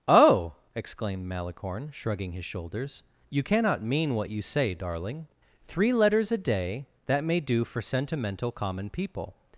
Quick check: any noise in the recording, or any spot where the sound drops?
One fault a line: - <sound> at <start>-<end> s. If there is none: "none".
none